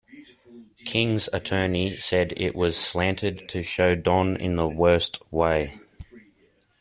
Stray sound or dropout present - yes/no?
no